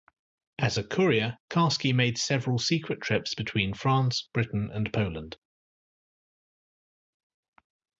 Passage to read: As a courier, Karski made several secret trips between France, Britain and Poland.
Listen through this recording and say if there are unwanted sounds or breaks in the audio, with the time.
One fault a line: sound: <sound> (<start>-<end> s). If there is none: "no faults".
no faults